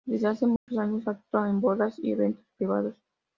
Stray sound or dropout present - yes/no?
yes